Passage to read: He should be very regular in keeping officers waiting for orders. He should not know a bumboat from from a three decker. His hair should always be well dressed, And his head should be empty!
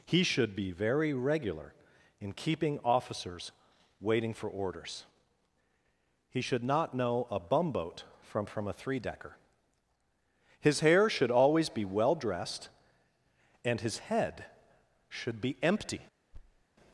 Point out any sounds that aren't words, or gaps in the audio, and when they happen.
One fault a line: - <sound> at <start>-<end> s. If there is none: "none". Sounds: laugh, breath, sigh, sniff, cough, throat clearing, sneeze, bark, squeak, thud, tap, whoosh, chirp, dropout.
- thud at 16.3-16.6 s